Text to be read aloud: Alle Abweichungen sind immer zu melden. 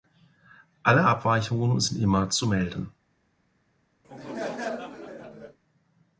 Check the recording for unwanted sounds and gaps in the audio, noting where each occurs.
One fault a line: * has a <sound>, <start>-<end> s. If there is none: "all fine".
* has a laugh, 4.0-5.6 s